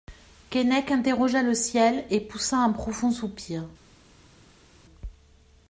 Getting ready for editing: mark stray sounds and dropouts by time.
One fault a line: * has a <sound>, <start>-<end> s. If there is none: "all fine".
all fine